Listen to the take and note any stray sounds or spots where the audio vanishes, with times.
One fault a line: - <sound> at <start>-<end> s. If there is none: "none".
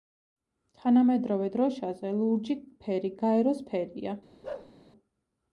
- bark at 4.4-4.7 s